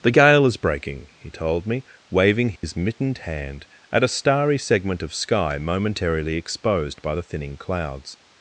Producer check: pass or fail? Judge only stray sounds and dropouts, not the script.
fail